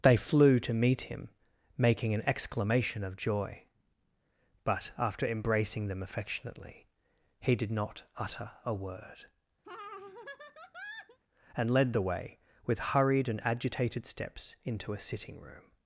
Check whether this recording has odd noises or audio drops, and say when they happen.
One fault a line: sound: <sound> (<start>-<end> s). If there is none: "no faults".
sound: laugh (9.6-11.2 s)